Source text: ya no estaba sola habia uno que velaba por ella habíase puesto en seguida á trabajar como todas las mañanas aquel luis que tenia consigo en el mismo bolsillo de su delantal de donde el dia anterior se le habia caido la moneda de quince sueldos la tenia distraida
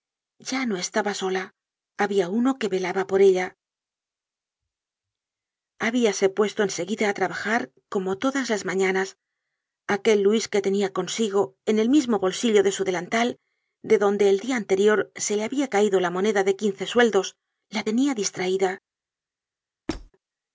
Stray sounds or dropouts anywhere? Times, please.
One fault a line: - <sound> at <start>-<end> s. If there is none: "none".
- squeak at 19.9-20.1 s